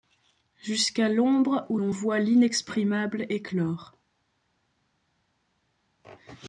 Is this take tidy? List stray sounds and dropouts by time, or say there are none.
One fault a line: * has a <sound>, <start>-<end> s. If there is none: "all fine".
all fine